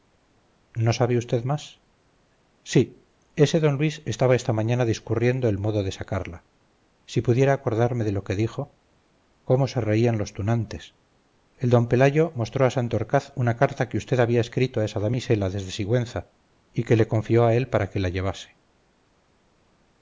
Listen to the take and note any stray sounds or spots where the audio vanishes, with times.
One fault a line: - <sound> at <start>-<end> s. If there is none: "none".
none